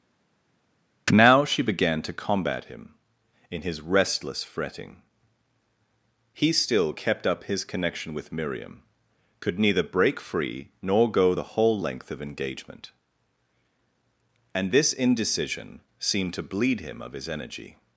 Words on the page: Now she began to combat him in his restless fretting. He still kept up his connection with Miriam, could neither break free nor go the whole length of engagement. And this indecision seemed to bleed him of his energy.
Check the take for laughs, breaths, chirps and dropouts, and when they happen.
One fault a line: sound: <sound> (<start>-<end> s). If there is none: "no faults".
no faults